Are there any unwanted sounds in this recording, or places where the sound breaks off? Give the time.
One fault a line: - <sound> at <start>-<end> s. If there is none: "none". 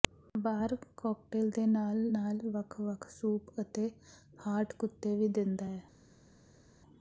none